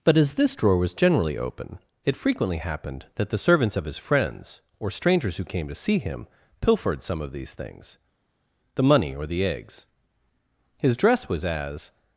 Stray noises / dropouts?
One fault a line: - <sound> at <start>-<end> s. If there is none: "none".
none